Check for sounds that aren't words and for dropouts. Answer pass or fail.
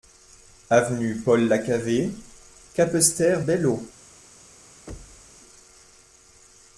fail